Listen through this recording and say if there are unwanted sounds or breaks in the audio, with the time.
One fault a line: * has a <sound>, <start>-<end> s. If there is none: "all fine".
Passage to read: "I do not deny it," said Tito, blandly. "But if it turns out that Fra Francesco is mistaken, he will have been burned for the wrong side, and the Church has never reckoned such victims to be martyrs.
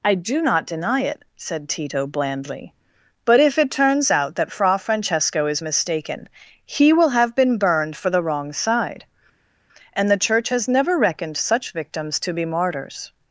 all fine